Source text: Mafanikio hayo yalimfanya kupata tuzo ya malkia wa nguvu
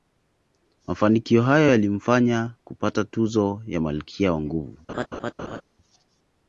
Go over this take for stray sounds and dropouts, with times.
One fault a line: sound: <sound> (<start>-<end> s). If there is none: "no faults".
sound: laugh (4.9-5.6 s)